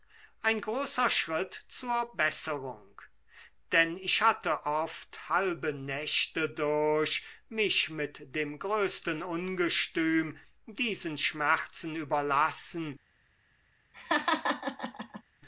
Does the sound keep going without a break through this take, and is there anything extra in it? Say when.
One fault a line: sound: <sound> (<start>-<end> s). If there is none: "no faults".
sound: laugh (13.9-15.2 s)